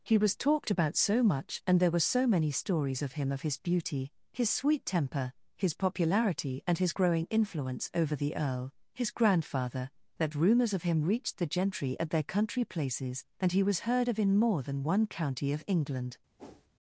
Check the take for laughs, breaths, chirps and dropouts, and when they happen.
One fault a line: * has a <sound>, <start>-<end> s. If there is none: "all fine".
* has a whoosh, 16.4-16.7 s